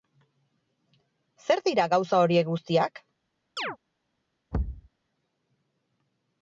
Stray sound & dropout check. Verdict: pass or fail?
fail